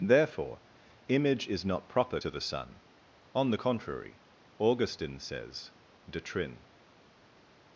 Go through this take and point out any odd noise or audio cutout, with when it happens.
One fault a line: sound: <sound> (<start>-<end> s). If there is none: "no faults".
no faults